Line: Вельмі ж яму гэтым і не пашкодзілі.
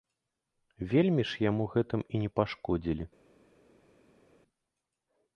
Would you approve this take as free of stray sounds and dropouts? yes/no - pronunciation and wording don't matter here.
yes